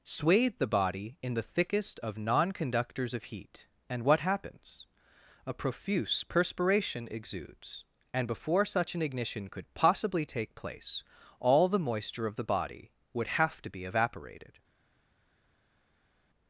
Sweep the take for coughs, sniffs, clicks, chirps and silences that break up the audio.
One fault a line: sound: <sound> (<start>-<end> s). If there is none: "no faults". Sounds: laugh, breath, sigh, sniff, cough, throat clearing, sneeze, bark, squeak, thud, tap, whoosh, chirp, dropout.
no faults